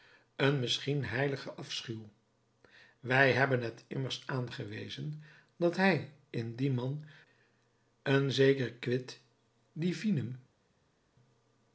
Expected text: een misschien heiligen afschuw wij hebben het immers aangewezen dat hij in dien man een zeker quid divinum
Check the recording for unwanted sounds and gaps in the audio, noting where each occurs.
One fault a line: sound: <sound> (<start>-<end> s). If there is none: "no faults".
no faults